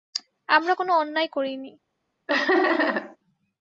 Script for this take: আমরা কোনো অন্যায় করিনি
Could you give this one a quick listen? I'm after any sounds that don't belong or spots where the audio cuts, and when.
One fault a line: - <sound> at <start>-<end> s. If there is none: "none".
- laugh at 2.3-3.2 s